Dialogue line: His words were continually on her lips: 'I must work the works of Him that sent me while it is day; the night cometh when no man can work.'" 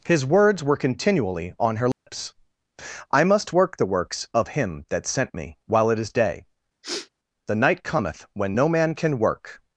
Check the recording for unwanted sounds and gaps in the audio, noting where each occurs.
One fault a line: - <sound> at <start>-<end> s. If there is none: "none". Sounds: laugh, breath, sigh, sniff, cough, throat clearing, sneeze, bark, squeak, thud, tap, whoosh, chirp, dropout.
- dropout at 1.9-2.1 s
- sniff at 6.8-7.1 s